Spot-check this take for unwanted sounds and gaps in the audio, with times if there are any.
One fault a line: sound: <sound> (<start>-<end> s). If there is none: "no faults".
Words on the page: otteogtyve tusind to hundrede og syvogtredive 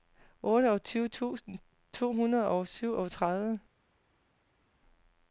no faults